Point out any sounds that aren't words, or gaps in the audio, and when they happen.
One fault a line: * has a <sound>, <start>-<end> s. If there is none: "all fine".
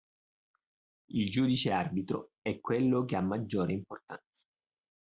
all fine